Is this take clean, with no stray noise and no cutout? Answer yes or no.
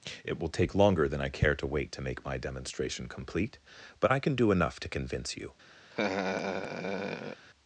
no